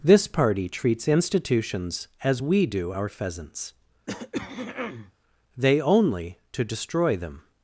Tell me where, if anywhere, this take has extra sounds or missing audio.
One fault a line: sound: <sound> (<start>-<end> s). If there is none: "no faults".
sound: throat clearing (4.1-5.1 s)